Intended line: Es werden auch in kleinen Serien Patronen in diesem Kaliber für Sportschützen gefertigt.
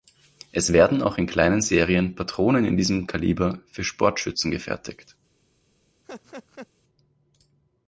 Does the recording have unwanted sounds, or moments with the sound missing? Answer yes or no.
yes